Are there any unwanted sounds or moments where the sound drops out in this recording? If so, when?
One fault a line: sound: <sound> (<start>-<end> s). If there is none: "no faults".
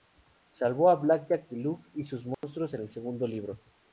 sound: dropout (2.3-2.4 s)